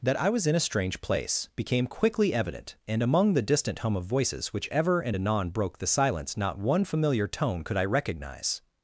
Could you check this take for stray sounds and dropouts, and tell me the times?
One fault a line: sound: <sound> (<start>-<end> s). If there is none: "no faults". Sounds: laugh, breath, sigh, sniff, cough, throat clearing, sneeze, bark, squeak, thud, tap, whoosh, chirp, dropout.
no faults